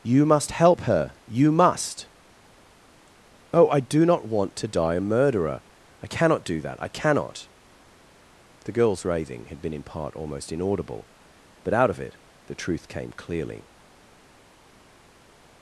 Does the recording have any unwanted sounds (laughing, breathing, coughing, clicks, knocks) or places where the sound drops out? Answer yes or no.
no